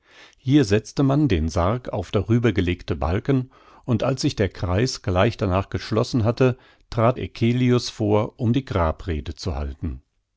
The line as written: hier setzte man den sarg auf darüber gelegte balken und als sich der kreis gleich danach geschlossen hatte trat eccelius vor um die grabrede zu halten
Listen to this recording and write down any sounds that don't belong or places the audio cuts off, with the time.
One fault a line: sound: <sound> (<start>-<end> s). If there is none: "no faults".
no faults